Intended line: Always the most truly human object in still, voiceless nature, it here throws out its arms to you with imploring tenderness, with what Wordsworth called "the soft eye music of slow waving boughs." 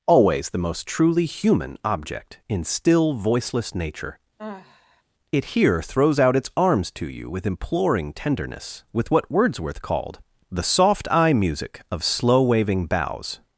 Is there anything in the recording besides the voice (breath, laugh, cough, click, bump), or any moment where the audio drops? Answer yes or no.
yes